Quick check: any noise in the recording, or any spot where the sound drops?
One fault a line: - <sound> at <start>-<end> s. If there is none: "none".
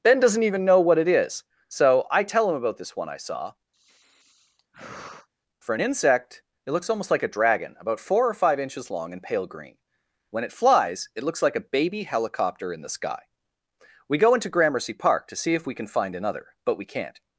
- sigh at 3.7-5.3 s